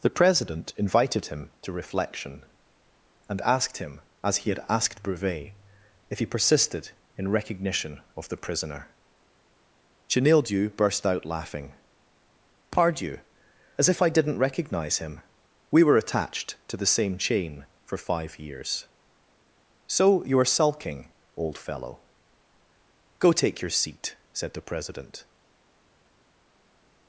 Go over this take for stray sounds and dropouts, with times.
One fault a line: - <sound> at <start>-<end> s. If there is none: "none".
none